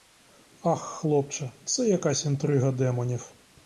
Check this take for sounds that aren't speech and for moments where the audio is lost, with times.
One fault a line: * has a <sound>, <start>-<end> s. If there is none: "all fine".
all fine